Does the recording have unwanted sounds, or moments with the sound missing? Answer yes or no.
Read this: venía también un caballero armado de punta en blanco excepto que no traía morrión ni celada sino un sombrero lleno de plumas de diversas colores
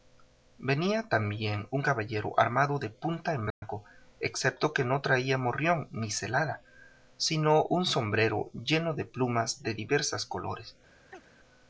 yes